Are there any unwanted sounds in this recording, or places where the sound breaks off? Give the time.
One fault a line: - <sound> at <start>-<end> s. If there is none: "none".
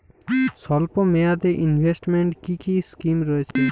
- dropout at 3.5-3.6 s